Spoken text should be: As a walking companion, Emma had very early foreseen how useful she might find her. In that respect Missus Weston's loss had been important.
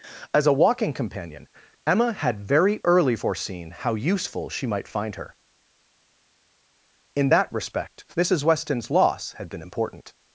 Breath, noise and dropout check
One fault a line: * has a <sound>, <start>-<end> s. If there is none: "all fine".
all fine